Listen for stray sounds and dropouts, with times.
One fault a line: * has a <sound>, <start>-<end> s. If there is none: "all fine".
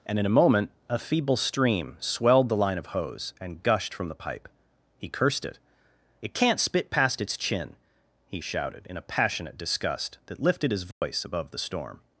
* has a dropout, 10.9-11.0 s